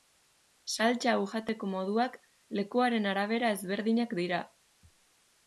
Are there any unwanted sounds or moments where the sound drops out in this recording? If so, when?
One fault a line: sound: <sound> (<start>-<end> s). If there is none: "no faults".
no faults